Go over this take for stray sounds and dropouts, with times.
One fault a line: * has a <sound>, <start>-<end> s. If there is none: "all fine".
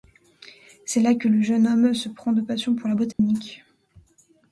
* has a dropout, 3.1-3.2 s